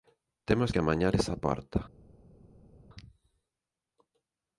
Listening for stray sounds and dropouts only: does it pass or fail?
pass